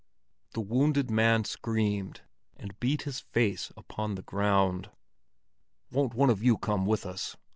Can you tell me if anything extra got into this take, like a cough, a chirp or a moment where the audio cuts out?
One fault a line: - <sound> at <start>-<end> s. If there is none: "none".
none